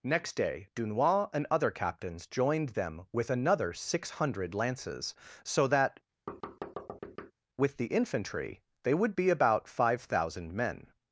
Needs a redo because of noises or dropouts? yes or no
yes